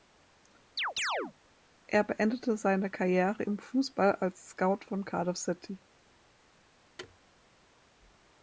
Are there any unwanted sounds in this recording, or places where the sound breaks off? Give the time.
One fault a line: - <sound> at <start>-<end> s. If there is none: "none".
- chirp at 0.8-1.3 s
- thud at 7.0-7.2 s